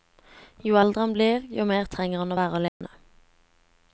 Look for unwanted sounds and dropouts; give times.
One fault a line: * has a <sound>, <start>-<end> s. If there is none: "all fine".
* has a dropout, 2.7-2.8 s